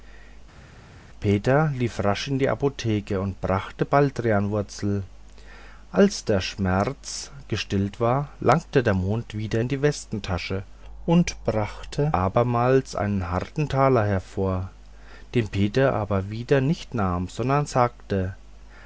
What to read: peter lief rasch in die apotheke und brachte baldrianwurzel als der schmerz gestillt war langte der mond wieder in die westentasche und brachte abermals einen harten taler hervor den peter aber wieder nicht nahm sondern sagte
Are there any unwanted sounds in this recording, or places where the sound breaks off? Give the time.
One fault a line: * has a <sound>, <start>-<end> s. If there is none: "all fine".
all fine